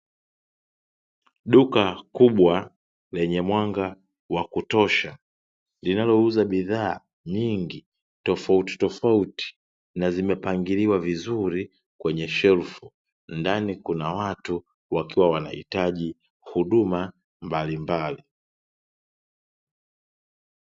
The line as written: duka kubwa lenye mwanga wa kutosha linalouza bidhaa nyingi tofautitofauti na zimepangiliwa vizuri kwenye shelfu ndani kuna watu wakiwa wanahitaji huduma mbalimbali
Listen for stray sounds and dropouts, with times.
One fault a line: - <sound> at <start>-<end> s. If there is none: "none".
none